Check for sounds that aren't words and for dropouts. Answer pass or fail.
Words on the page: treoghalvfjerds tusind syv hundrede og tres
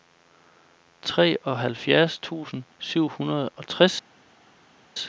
pass